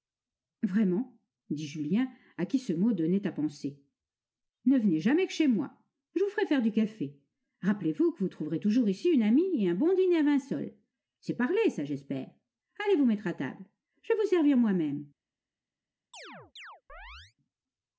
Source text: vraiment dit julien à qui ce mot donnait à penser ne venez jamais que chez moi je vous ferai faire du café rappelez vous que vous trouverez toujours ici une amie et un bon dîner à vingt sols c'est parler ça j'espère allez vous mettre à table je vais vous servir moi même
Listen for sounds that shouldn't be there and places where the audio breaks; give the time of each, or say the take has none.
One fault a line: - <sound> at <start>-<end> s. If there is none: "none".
- chirp at 16.1-17.3 s